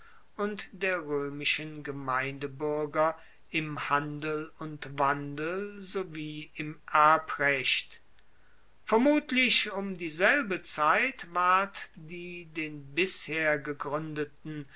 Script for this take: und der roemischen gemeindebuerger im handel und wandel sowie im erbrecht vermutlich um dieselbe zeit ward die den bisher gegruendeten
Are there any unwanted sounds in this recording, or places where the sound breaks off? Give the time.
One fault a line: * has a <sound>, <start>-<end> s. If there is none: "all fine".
all fine